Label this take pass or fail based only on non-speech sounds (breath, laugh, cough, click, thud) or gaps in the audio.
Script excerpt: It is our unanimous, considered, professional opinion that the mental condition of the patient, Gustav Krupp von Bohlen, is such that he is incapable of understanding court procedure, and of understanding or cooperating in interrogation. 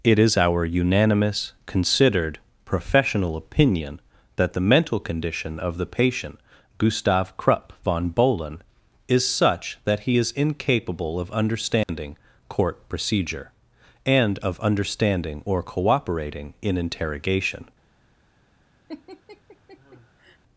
fail